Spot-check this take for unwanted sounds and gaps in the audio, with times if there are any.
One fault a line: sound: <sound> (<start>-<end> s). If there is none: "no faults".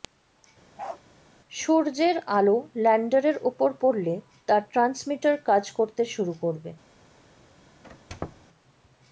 sound: bark (0.8-1.0 s)
sound: squeak (7.8-8.5 s)